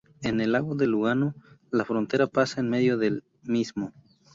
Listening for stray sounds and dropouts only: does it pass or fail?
pass